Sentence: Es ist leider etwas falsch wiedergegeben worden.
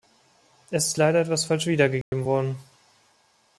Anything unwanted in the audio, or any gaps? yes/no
yes